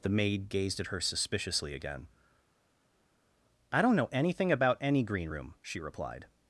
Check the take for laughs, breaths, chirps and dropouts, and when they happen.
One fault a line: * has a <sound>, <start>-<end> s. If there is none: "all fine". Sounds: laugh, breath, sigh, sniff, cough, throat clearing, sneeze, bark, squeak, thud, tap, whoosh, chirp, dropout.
all fine